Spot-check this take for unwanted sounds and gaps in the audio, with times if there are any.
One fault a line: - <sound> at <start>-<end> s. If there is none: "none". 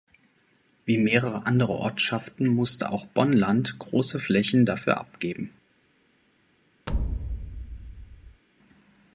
- thud at 6.9-8.4 s